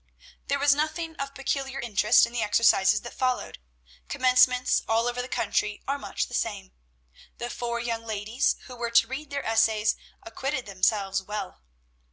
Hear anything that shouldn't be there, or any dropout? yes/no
no